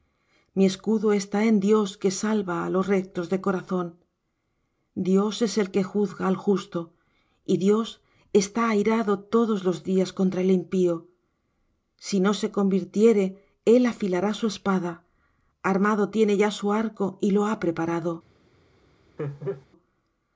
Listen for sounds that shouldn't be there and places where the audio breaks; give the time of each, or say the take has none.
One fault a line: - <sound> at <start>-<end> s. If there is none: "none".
- laugh at 19.2-19.7 s